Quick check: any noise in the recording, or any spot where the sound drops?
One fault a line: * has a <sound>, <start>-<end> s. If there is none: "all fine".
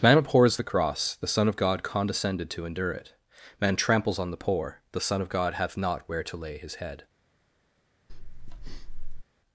* has a breath, 8.1-9.2 s